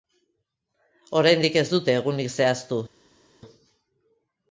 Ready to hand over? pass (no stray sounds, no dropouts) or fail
pass